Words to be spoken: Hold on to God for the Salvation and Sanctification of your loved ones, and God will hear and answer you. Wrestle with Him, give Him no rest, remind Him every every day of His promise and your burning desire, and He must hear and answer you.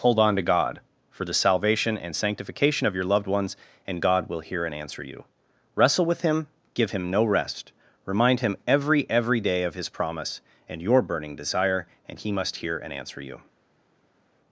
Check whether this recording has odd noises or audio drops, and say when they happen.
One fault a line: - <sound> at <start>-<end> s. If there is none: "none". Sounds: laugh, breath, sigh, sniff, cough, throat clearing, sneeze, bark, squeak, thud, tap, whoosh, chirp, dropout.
none